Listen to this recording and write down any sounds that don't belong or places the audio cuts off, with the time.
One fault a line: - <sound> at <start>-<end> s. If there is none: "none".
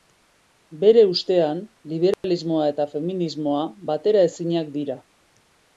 - dropout at 2.1-2.2 s